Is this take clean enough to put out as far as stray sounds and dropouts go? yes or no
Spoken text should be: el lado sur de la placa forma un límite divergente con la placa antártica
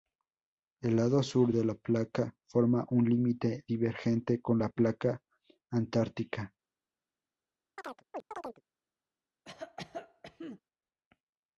no